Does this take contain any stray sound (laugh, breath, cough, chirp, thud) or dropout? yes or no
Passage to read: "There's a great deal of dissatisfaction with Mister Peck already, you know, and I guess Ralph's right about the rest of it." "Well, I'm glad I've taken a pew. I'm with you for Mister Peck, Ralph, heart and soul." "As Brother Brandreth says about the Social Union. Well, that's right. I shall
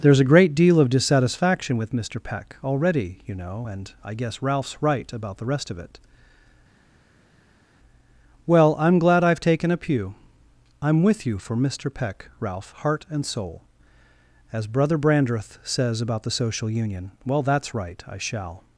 no